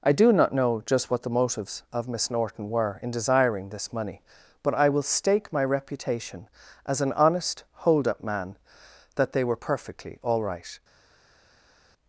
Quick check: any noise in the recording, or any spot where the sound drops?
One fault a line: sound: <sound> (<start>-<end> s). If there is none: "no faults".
no faults